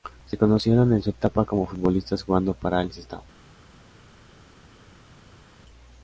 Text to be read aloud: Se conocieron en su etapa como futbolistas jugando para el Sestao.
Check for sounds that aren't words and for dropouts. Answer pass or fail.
pass